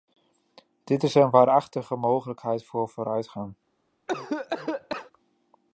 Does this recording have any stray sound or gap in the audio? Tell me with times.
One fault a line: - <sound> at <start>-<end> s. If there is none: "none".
- cough at 4.1-5.1 s